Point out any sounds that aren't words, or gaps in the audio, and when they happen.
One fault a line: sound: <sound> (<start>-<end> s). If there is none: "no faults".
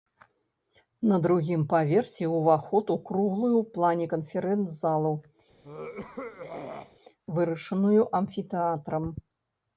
sound: throat clearing (5.6-7.0 s)